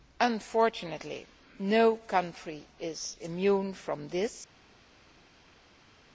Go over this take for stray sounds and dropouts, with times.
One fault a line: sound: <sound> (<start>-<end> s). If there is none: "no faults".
no faults